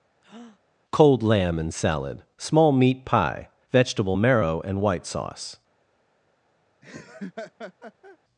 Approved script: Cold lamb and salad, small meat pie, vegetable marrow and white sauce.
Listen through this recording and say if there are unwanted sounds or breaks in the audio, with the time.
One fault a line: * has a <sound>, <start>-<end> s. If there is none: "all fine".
* has a breath, 0.2-0.6 s
* has a laugh, 6.8-8.2 s